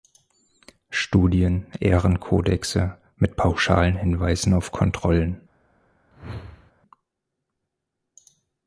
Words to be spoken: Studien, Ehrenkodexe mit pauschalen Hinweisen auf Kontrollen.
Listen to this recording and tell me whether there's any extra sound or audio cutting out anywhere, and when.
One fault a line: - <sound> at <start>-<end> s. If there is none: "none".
- whoosh at 6.1-6.7 s